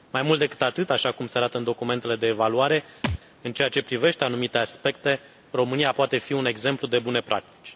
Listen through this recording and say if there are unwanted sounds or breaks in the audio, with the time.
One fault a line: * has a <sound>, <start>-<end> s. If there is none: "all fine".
* has a thud, 3.0-3.2 s